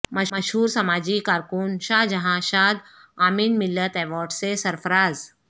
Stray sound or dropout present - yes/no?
no